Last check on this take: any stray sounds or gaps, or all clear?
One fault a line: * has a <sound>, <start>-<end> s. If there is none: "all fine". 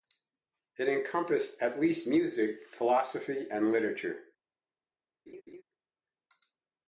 * has a laugh, 5.3-5.6 s